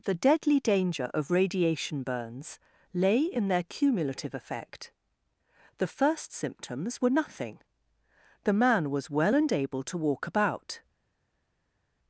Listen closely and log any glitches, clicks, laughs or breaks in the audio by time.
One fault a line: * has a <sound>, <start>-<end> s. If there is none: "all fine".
all fine